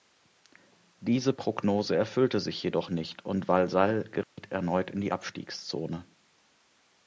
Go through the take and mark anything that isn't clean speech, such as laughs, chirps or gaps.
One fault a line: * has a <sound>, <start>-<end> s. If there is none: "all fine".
* has a dropout, 4.2-4.4 s